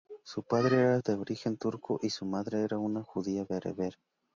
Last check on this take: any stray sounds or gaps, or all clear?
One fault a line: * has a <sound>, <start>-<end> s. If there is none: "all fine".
all fine